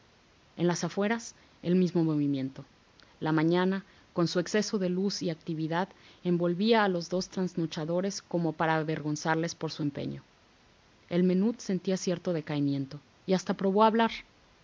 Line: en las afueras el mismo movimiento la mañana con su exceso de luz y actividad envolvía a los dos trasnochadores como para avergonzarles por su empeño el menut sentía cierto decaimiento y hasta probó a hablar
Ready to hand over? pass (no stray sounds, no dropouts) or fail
pass